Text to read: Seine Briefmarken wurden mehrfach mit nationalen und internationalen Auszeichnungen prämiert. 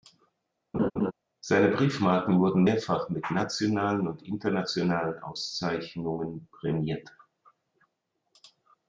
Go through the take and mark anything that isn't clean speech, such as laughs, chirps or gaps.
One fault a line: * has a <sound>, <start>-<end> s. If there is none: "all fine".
* has a laugh, 0.7-1.1 s